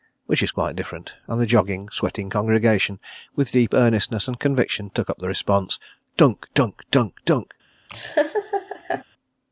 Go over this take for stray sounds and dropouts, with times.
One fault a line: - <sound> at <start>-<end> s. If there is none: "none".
- laugh at 7.9-9.0 s